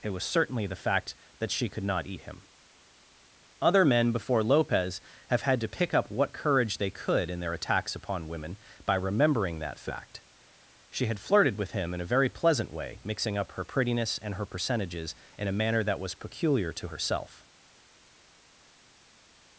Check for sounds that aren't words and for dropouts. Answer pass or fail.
pass